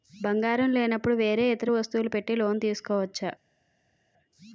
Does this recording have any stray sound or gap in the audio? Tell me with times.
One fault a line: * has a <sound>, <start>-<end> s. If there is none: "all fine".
all fine